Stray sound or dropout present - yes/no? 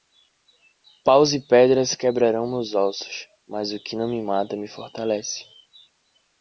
no